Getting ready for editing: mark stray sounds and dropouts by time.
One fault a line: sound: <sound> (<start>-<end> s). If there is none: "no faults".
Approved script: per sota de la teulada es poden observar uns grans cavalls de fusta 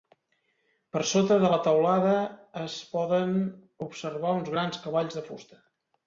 no faults